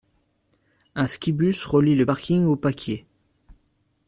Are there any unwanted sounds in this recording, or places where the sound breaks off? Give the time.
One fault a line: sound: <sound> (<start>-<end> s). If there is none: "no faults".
no faults